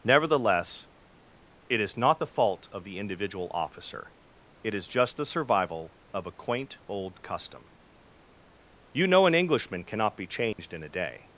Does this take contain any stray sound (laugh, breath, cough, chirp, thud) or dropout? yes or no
yes